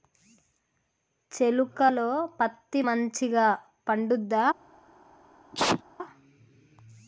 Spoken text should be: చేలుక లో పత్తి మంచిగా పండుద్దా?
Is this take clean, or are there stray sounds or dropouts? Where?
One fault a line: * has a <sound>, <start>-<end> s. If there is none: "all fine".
* has a sneeze, 5.5-5.8 s